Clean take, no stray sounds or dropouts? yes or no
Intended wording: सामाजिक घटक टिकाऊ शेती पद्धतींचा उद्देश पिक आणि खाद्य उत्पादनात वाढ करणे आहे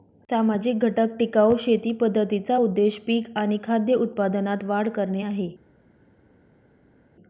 yes